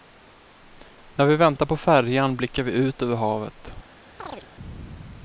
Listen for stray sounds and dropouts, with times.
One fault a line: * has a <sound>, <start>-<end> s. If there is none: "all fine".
* has a chirp, 4.2-4.5 s